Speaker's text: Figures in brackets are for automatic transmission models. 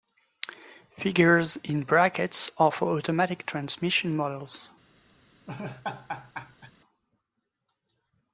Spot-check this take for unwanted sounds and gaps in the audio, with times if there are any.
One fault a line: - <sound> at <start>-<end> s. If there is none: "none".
- laugh at 5.5-6.7 s